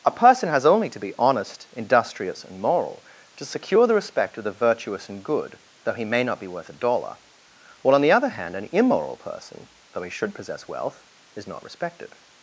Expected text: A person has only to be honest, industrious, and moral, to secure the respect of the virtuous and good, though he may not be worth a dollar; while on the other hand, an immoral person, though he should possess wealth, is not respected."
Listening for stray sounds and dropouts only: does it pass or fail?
pass